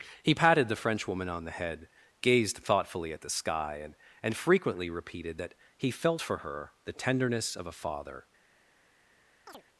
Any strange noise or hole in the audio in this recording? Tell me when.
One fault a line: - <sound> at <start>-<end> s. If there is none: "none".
- chirp at 9.5-9.6 s